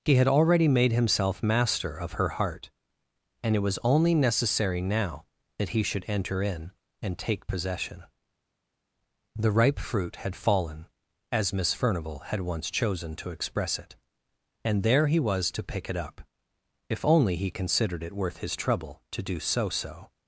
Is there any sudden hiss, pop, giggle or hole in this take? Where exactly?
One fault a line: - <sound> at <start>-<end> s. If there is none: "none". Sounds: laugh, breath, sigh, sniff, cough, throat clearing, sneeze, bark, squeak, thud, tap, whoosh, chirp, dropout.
none